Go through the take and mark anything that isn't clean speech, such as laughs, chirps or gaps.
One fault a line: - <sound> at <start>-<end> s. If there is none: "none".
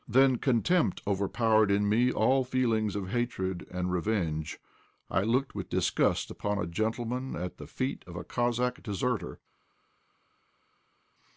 none